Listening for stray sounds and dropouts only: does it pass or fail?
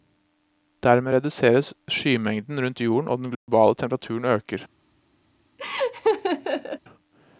fail